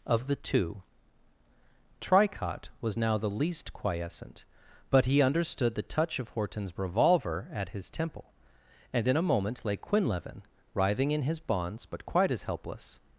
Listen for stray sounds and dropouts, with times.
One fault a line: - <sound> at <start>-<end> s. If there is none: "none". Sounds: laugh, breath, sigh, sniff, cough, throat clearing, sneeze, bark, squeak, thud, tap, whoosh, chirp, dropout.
none